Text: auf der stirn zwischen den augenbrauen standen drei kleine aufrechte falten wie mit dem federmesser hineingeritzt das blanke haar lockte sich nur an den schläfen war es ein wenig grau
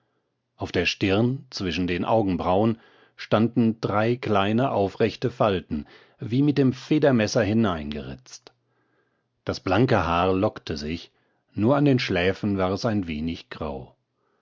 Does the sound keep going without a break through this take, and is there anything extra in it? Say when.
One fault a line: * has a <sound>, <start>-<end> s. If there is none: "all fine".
all fine